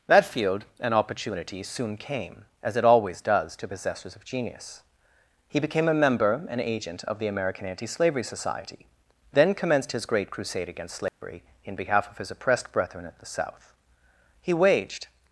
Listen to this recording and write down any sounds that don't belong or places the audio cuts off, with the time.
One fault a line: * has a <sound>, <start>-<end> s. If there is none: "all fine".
* has a dropout, 11.1-11.2 s